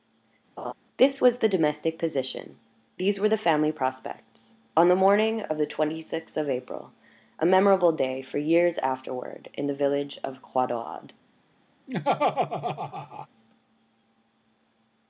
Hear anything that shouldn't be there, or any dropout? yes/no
yes